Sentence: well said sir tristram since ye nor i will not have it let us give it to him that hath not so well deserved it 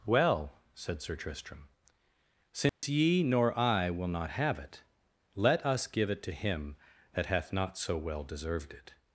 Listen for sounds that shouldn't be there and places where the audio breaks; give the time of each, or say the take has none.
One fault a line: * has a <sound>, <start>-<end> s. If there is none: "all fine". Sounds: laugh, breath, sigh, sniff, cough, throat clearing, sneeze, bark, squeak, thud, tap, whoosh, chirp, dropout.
* has a dropout, 2.7-2.8 s